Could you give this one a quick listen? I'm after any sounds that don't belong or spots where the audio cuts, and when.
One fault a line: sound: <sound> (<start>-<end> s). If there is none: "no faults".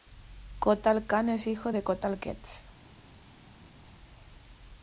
no faults